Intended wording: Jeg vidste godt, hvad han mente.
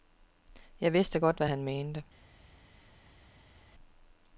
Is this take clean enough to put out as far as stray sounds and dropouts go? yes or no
yes